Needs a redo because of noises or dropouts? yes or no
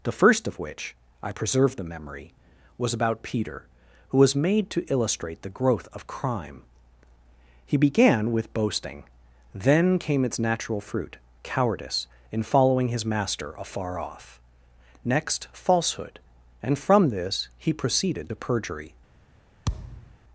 yes